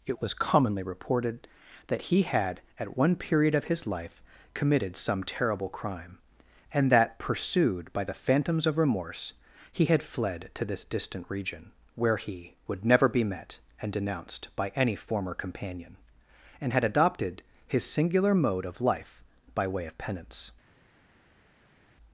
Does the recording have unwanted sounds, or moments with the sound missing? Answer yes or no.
no